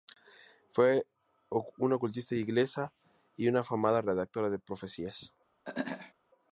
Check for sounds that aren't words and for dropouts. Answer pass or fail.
fail